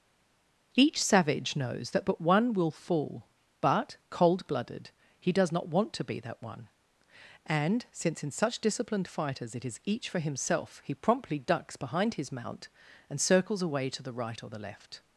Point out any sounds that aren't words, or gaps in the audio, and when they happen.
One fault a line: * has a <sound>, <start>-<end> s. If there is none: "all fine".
all fine